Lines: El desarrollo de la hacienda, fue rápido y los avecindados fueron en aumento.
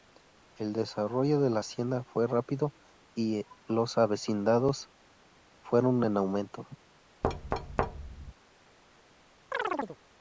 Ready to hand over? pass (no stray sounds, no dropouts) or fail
fail